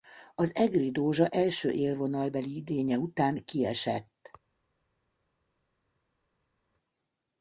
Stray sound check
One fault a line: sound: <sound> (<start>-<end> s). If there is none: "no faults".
no faults